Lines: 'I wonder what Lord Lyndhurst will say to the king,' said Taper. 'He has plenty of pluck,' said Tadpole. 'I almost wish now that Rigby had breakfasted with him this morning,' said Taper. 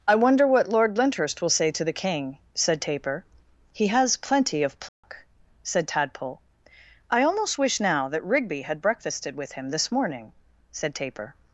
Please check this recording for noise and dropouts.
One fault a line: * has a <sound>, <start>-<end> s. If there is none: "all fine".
* has a dropout, 4.9-5.0 s